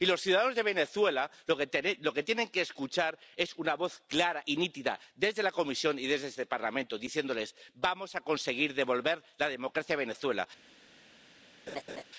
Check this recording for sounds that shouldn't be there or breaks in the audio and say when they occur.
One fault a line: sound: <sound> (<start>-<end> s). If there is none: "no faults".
sound: laugh (11.7-12.0 s)